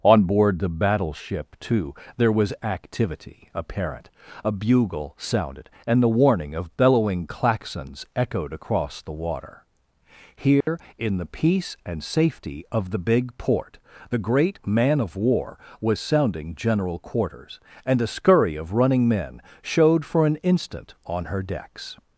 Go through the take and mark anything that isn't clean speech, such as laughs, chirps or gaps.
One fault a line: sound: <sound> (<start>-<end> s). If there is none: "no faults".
sound: dropout (10.6-10.7 s)